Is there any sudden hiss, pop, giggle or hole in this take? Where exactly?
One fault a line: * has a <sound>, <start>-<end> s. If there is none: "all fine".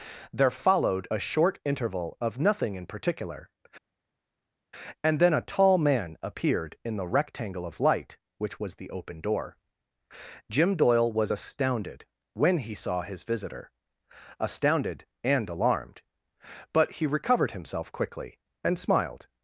all fine